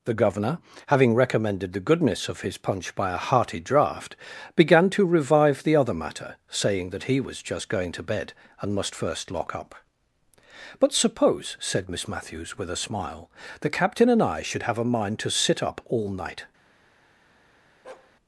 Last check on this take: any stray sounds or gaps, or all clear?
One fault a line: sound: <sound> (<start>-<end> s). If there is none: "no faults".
sound: bark (17.8-18.1 s)